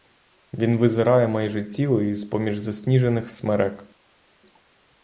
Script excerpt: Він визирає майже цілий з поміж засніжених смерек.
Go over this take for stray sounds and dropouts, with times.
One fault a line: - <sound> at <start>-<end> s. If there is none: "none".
none